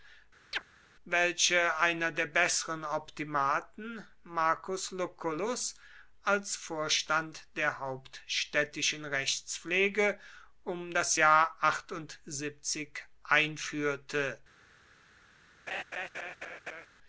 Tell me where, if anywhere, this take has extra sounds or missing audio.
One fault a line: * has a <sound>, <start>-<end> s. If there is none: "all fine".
* has a chirp, 0.5-0.6 s
* has a laugh, 15.7-16.9 s